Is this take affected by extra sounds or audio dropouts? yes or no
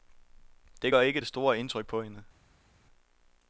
no